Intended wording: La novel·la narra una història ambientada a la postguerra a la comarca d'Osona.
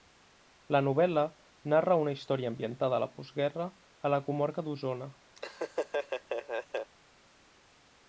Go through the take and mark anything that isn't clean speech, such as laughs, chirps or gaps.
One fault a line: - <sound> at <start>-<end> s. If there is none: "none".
- laugh at 5.4-6.9 s